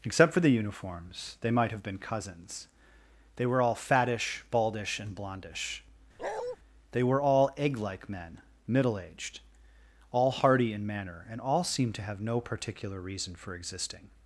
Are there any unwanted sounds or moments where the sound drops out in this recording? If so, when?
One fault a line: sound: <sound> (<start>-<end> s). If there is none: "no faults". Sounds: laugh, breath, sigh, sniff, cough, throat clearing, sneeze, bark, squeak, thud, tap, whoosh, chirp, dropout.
sound: bark (6.2-6.6 s)